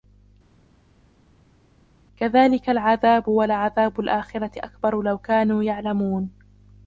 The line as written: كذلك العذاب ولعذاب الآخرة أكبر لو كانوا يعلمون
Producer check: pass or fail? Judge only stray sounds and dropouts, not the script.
pass